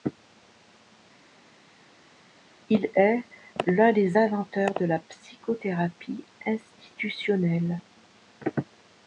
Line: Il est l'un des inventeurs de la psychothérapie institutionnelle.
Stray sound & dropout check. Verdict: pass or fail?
pass